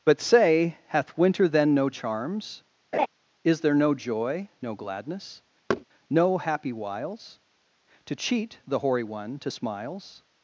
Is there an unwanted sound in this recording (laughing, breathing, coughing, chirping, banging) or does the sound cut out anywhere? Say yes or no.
yes